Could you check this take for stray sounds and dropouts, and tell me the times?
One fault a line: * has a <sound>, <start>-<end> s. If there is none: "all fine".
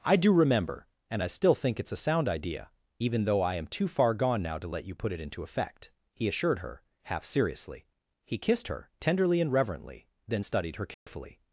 * has a dropout, 10.9-11.1 s